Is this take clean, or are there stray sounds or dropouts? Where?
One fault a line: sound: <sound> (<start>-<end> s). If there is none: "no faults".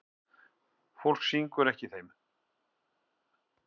no faults